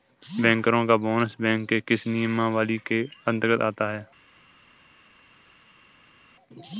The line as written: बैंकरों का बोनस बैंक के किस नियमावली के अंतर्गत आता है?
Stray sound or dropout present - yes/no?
no